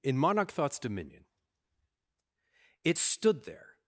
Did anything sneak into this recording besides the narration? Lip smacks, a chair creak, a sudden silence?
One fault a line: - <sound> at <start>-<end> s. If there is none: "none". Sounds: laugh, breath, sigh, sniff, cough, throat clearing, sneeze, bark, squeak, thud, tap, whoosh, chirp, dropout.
none